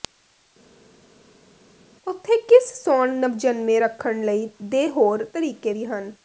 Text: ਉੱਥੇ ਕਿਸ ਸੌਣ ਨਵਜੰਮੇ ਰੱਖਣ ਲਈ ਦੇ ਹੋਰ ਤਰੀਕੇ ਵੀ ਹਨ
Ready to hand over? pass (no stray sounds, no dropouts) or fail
pass